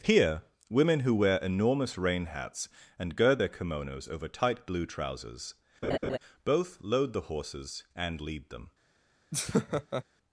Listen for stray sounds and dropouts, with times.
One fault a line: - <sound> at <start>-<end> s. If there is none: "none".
- laugh at 5.8-6.2 s
- laugh at 9.3-10.0 s